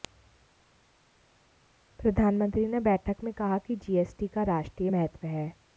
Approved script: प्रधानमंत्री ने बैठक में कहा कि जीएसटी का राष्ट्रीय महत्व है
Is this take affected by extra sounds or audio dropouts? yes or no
no